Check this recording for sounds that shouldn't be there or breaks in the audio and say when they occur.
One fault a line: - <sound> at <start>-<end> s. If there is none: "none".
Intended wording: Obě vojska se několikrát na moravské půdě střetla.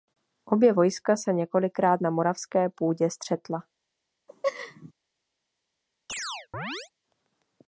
- laugh at 4.3-4.9 s
- chirp at 6.1-6.9 s